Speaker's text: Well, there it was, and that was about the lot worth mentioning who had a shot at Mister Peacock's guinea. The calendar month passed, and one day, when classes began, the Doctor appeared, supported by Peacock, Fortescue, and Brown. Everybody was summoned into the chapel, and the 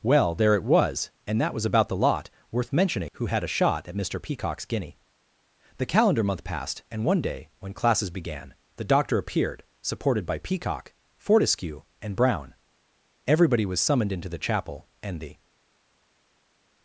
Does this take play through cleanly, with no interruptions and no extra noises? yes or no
yes